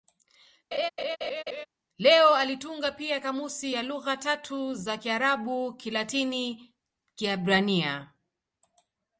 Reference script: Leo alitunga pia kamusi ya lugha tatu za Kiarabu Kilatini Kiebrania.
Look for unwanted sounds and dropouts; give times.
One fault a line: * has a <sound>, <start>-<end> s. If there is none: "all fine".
* has a laugh, 0.7-1.7 s